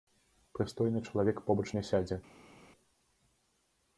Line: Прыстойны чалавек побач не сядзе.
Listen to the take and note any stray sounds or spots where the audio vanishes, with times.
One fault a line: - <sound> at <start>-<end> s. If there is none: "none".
none